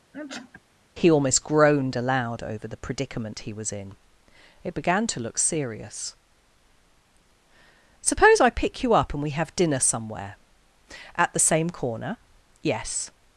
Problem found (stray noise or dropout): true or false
true